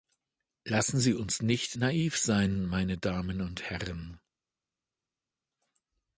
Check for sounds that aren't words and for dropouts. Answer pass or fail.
pass